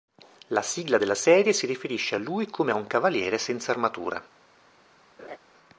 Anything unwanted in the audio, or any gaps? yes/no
yes